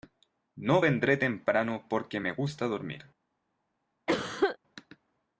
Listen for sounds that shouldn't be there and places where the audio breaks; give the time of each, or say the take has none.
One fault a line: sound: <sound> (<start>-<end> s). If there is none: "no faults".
sound: cough (4.1-4.6 s)